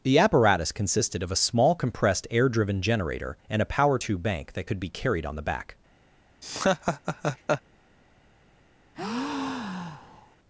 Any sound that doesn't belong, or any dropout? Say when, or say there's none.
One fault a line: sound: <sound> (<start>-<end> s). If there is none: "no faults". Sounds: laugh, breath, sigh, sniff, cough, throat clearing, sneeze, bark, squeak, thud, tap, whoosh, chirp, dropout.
sound: laugh (6.4-7.6 s)
sound: breath (8.9-10.4 s)